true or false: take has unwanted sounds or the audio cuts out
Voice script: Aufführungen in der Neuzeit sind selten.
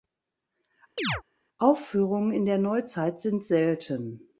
true